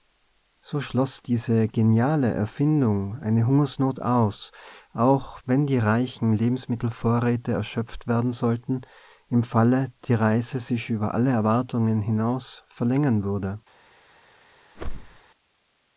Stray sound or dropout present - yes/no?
yes